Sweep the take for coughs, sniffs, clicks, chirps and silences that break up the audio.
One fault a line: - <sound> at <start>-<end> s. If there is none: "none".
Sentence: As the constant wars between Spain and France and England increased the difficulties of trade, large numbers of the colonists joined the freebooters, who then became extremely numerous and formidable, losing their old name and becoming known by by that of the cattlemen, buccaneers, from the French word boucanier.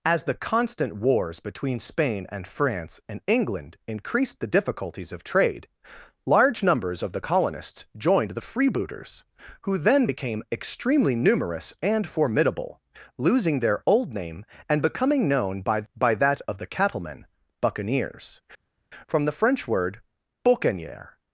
none